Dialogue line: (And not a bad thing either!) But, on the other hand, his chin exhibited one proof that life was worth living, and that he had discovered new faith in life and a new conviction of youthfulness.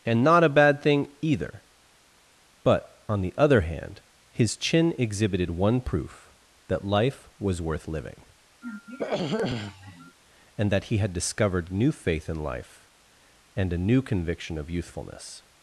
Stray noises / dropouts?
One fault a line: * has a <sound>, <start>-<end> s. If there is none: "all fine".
* has a throat clearing, 8.6-10.2 s